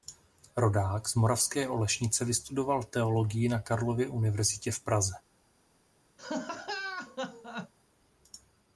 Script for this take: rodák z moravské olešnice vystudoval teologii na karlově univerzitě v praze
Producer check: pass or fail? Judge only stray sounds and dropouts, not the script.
fail